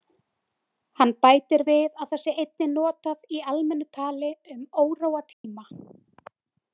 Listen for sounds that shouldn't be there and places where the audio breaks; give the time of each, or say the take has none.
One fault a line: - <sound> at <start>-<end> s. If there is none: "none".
- dropout at 5.3-5.4 s